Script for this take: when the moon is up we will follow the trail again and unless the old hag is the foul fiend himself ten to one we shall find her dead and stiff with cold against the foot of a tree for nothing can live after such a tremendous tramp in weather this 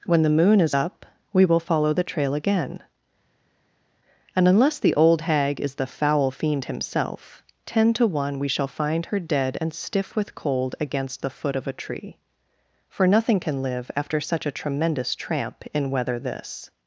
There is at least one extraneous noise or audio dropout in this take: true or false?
false